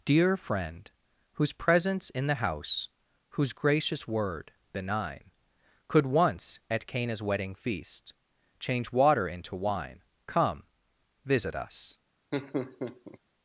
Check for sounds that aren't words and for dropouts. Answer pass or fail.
fail